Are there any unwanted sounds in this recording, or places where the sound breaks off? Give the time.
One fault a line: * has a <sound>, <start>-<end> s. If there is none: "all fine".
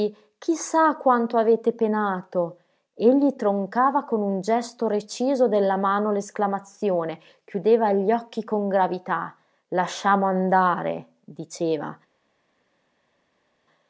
all fine